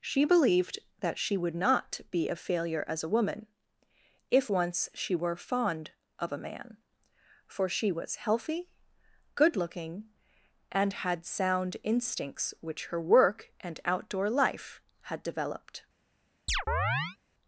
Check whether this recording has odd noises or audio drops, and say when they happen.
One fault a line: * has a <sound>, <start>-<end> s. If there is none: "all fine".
* has a chirp, 16.5-17.2 s